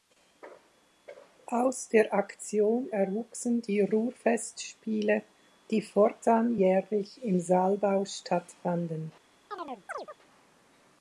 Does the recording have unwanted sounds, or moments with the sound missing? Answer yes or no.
yes